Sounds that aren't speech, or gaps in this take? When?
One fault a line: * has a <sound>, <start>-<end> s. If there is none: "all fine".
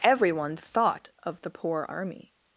all fine